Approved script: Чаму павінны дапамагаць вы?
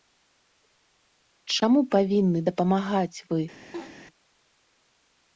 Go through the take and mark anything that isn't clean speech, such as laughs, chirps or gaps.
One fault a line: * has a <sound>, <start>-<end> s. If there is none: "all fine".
* has a laugh, 3.7-4.0 s